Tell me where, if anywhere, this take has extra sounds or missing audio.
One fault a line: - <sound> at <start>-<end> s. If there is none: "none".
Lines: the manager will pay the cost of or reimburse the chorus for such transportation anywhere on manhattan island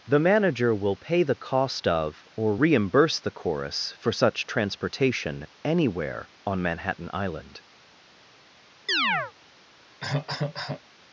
- chirp at 8.9-9.3 s
- cough at 10.0-10.8 s